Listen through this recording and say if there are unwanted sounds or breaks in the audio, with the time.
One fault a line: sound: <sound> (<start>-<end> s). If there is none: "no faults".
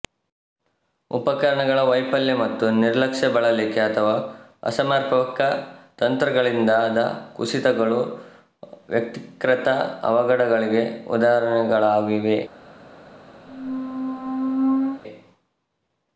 sound: squeak (13.5-15.0 s)